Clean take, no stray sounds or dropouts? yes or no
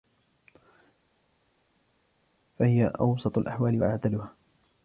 yes